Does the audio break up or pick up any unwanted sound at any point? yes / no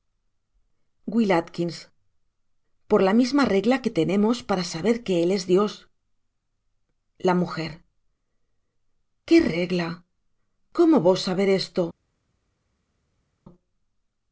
no